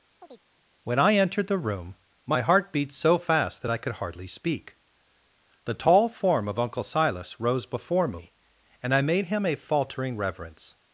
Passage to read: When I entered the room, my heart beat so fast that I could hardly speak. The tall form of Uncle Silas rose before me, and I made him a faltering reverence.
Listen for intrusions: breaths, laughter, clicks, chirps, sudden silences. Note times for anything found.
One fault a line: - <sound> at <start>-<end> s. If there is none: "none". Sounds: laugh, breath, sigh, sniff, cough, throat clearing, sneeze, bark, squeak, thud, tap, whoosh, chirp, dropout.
- chirp at 0.2-0.4 s